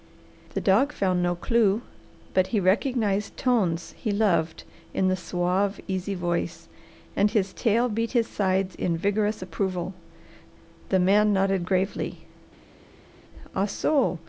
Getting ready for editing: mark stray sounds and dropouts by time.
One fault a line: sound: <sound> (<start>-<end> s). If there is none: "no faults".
no faults